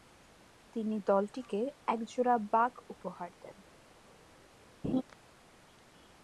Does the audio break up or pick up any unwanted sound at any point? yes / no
yes